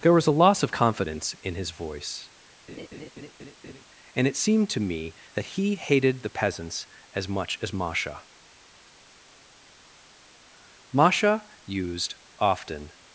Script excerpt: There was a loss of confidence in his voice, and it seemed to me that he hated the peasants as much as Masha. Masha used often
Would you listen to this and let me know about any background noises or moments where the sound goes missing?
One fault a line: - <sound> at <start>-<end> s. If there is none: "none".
- laugh at 2.7-3.8 s